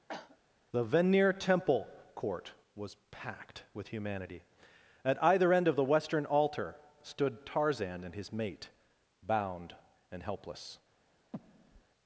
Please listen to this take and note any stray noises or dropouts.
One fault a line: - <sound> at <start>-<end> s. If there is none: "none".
- cough at 0.1-0.4 s
- breath at 11.3-11.8 s